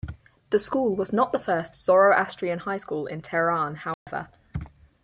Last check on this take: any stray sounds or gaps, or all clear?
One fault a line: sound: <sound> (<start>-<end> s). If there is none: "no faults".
sound: dropout (3.9-4.1 s)